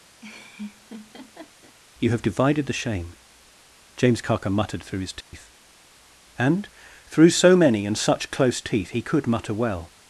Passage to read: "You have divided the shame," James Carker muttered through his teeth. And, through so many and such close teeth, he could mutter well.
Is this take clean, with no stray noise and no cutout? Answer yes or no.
no